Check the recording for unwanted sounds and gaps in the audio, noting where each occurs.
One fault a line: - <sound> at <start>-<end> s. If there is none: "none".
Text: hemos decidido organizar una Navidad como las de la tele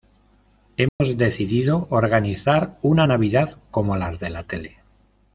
- dropout at 0.9-1.0 s